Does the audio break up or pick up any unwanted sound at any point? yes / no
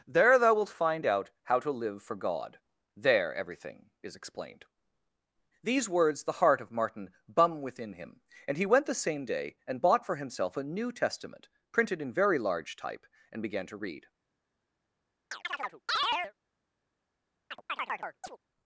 yes